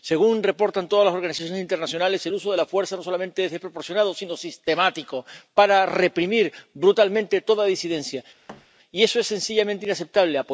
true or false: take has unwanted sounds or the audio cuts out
true